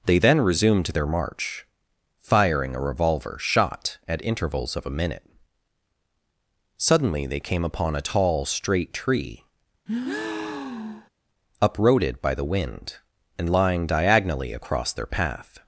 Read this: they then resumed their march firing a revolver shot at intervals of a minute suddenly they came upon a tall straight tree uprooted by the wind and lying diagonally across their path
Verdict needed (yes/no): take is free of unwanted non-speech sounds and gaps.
no